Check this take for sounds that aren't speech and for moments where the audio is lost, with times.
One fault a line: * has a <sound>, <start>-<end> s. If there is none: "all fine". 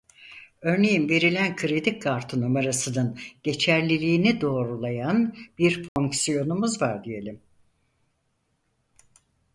* has a dropout, 5.9-6.0 s